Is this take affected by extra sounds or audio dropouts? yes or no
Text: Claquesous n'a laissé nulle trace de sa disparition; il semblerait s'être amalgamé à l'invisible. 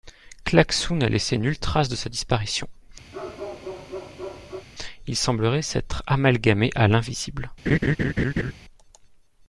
yes